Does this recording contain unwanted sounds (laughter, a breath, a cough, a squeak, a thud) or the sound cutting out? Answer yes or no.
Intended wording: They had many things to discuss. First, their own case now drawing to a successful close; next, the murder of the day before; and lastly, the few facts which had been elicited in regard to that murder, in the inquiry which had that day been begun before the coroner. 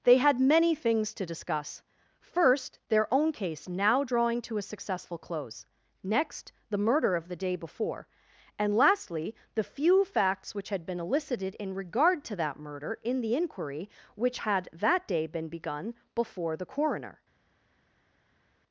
no